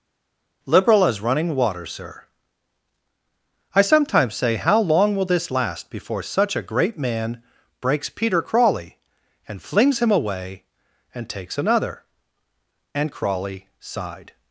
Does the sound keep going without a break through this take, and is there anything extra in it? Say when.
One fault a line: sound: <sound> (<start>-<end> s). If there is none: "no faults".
no faults